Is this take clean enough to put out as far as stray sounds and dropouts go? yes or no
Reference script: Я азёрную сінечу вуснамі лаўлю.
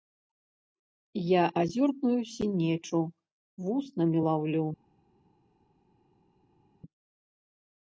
yes